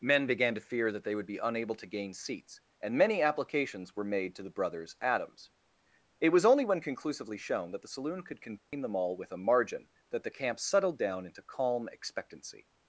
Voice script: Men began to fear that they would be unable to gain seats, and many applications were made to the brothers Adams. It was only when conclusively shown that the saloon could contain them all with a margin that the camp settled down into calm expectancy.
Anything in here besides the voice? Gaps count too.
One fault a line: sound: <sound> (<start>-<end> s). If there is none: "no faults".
sound: dropout (8.6-8.7 s)